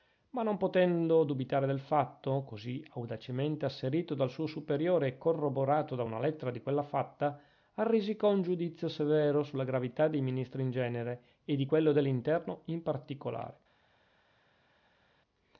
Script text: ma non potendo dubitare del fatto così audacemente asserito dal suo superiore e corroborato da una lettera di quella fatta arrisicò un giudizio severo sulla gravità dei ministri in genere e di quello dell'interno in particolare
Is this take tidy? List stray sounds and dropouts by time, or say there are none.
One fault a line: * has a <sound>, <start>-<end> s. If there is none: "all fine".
all fine